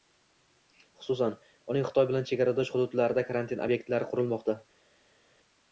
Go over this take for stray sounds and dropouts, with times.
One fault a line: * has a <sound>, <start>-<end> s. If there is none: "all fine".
all fine